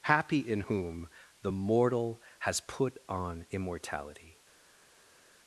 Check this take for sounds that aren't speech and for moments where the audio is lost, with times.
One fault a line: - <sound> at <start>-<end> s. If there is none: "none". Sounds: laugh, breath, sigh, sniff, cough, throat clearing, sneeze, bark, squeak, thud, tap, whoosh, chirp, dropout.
none